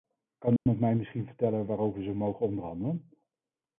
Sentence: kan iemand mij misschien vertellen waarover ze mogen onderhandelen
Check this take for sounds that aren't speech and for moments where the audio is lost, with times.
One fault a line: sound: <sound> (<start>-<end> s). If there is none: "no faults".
sound: dropout (0.6-0.7 s)